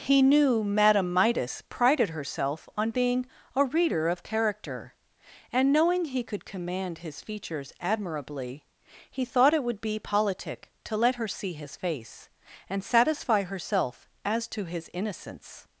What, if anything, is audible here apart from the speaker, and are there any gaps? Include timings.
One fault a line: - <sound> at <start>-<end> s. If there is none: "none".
none